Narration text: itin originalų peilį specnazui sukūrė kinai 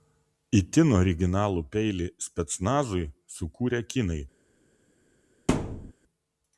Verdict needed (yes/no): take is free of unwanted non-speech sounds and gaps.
no